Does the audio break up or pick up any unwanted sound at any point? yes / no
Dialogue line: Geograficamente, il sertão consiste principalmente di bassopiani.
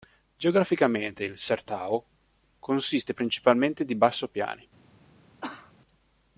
yes